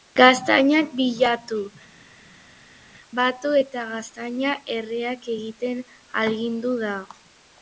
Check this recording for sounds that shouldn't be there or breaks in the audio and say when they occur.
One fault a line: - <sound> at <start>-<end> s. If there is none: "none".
none